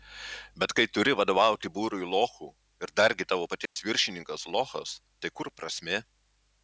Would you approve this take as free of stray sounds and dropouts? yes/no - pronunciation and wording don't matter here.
no